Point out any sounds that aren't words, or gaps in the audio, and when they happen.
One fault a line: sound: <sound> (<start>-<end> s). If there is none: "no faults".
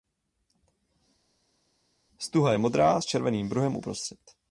no faults